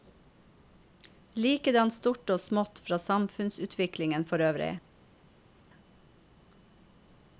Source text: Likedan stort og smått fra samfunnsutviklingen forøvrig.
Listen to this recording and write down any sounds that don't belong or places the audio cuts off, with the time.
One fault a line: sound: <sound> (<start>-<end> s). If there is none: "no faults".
no faults